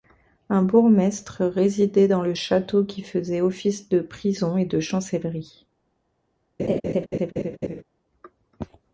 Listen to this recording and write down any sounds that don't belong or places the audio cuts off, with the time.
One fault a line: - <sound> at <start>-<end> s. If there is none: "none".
- laugh at 6.6-7.8 s